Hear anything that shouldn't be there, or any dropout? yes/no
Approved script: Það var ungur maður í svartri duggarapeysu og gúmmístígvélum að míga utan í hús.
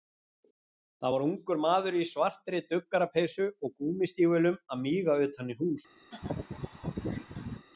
yes